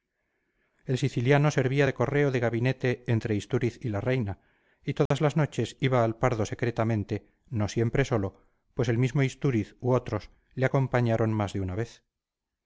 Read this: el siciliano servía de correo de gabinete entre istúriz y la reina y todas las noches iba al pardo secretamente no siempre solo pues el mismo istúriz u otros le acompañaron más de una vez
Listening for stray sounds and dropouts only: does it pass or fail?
fail